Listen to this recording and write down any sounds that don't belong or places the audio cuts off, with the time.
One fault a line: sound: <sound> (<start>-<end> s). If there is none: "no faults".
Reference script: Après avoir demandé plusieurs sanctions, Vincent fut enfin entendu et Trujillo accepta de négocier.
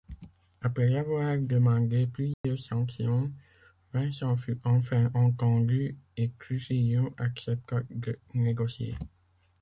sound: dropout (2.3-2.4 s)